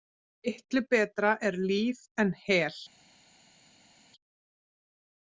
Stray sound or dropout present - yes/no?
no